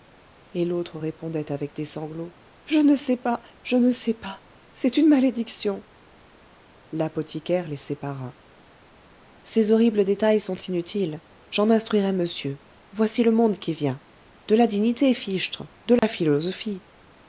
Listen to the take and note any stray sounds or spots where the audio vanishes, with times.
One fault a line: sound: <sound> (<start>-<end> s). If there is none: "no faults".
sound: dropout (16.0-16.0 s)